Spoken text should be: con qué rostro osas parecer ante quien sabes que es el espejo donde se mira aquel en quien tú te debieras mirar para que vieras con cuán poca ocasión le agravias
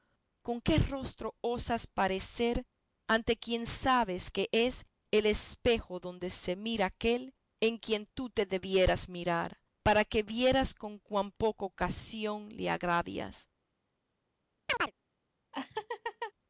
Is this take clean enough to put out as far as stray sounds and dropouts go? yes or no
no